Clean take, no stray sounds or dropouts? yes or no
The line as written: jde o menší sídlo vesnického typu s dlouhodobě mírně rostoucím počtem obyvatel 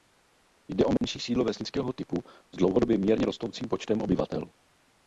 no